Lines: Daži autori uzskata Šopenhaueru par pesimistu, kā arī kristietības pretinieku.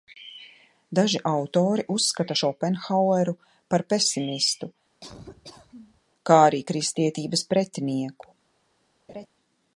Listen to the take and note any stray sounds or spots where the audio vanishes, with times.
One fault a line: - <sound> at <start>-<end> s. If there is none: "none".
- laugh at 5.0-6.0 s
- laugh at 9.1-9.3 s